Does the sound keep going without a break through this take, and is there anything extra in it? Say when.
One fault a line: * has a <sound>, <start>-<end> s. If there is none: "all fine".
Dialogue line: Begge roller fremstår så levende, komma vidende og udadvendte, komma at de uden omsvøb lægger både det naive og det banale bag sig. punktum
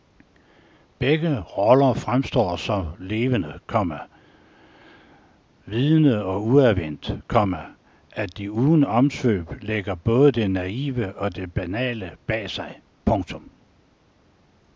all fine